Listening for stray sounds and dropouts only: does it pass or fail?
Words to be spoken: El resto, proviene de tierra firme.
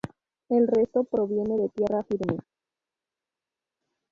pass